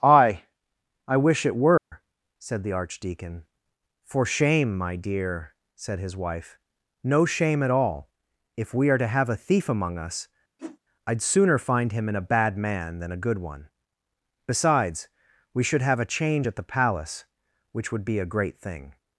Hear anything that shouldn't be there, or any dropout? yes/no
yes